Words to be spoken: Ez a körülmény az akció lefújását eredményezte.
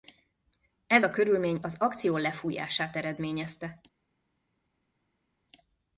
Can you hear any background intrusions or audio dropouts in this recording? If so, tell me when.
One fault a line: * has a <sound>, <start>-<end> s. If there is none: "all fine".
all fine